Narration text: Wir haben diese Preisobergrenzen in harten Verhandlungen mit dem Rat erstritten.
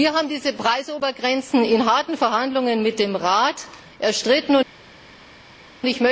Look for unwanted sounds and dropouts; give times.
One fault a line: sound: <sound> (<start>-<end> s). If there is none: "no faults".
no faults